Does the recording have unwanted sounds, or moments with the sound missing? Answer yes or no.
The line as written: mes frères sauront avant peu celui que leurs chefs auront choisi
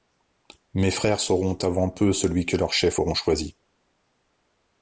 no